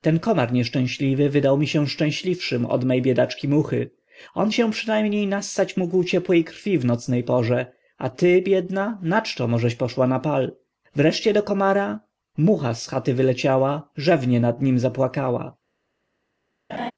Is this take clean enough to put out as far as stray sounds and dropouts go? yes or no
no